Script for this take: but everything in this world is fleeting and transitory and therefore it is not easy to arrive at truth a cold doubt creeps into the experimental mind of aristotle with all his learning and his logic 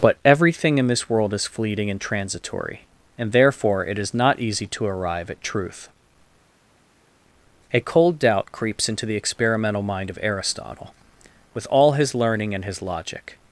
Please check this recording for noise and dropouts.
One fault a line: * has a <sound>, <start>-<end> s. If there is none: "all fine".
all fine